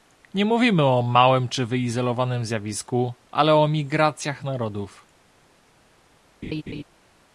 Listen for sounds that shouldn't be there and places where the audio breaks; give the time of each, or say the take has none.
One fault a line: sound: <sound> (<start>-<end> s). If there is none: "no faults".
sound: laugh (6.4-6.8 s)